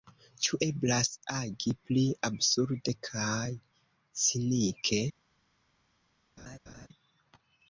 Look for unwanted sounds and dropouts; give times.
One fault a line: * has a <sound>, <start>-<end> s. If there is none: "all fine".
* has a laugh, 6.4-6.9 s